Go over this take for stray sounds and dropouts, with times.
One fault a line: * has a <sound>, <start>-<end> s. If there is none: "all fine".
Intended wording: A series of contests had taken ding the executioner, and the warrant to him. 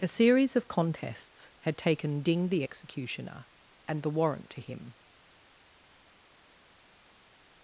all fine